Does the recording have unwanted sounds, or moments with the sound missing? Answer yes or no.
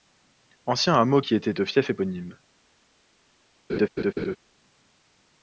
yes